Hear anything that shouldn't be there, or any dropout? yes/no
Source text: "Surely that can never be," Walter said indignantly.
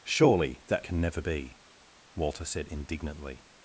no